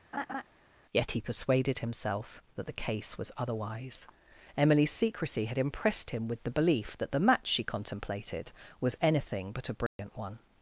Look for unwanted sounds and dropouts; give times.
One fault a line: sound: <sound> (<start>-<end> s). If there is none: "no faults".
sound: laugh (0.1-0.4 s)
sound: dropout (9.9-10.0 s)